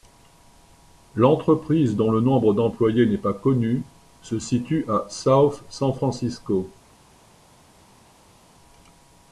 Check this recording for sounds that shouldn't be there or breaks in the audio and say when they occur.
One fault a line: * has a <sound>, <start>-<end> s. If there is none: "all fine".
all fine